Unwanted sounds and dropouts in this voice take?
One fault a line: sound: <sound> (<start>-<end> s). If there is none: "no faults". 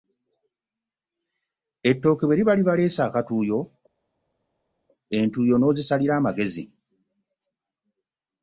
no faults